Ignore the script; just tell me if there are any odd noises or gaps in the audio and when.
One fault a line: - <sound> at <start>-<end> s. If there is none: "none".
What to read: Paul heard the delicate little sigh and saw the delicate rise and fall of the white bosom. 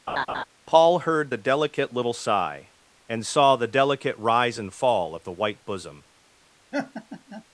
- laugh at 0.1-0.4 s
- laugh at 6.7-7.4 s